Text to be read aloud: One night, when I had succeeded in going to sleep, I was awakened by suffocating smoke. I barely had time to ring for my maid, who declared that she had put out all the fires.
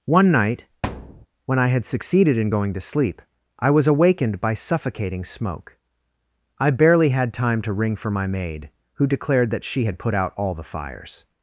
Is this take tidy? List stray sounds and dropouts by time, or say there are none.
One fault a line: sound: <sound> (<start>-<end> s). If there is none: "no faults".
sound: thud (0.8-1.3 s)